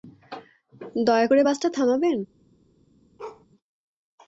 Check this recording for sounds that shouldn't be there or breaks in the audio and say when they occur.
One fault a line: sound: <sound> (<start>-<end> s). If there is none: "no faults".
sound: bark (3.2-3.5 s)